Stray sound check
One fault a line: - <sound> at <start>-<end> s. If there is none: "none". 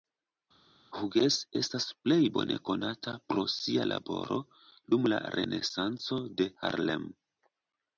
none